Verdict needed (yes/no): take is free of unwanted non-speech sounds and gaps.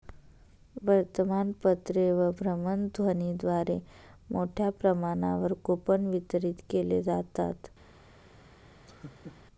no